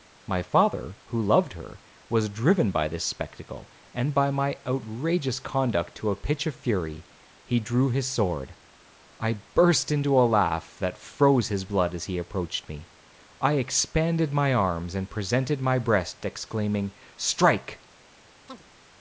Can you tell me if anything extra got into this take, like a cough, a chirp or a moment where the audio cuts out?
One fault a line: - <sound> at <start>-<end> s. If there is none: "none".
- chirp at 18.5-18.6 s